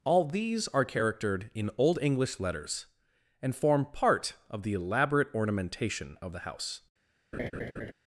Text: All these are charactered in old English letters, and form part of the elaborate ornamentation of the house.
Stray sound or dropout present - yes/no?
yes